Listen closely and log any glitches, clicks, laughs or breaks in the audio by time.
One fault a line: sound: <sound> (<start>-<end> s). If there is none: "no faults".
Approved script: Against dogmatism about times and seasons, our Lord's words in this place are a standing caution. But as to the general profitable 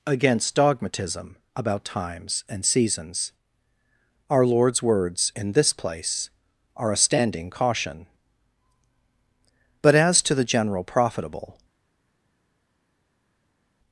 no faults